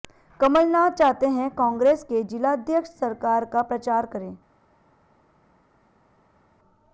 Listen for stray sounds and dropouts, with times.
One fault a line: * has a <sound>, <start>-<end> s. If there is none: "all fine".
all fine